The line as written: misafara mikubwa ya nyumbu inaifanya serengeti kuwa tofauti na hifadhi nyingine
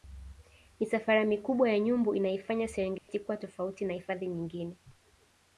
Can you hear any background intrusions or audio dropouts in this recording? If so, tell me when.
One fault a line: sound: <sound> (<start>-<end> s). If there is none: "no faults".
sound: dropout (3.0-3.1 s)